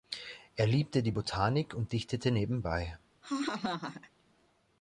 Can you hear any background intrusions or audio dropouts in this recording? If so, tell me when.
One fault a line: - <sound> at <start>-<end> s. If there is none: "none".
- laugh at 3.2-4.1 s